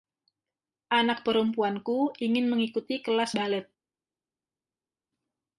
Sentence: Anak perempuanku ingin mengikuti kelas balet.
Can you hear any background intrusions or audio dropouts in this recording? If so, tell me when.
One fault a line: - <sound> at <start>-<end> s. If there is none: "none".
none